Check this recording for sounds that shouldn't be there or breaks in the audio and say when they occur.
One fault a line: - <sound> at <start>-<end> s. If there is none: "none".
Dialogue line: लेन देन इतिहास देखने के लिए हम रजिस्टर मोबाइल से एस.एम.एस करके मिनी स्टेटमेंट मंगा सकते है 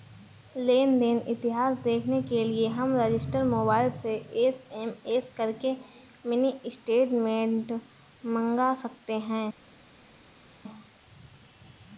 none